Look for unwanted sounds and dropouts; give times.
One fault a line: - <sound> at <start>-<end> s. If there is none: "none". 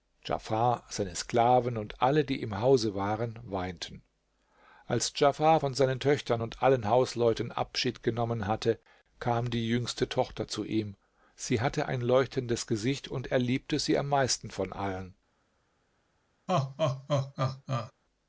- laugh at 16.5-17.9 s